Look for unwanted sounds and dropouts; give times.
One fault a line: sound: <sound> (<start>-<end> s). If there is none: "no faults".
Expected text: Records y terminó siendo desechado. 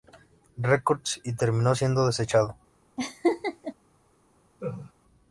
sound: laugh (3.0-3.7 s)
sound: laugh (4.6-4.9 s)